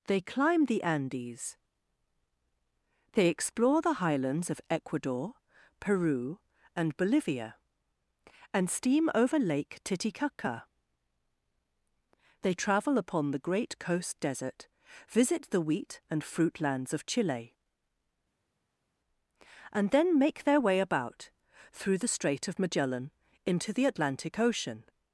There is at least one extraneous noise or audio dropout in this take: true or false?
false